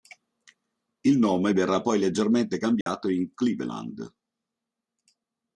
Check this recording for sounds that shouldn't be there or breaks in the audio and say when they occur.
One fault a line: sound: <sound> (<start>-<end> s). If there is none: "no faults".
sound: dropout (2.8-2.9 s)